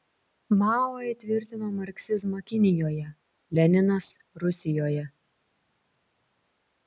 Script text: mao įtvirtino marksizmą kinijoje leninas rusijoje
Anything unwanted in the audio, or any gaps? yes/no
no